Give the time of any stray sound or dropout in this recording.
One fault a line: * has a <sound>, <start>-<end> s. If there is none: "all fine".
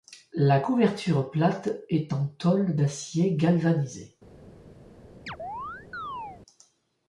* has a chirp, 5.3-6.4 s